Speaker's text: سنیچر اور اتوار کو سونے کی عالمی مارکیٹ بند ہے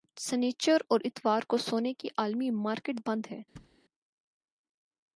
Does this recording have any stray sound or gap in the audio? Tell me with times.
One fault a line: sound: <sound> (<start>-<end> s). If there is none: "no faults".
sound: thud (3.6-3.8 s)